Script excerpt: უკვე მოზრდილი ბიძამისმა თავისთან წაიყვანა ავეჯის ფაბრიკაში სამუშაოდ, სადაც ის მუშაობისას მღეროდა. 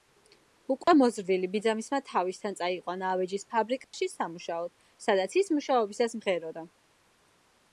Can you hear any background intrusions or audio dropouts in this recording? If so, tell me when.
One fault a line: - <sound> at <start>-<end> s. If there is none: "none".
- dropout at 0.8-0.9 s
- dropout at 3.8-3.9 s